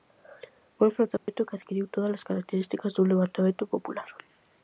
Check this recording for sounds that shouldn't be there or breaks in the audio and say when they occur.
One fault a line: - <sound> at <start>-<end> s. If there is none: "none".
- dropout at 1.2-1.3 s